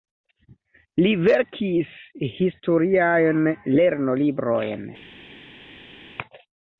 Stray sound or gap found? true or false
false